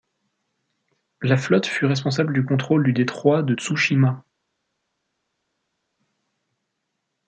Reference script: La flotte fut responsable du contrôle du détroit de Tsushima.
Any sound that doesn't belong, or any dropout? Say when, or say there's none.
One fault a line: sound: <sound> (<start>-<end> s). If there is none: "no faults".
no faults